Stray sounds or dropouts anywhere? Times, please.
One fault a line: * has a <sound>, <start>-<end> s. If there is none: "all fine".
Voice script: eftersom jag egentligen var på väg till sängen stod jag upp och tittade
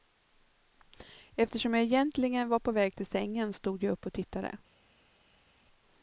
all fine